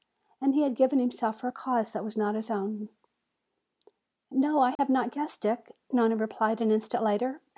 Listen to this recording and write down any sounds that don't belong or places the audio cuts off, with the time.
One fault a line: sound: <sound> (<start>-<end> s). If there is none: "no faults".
sound: dropout (4.8-4.8 s)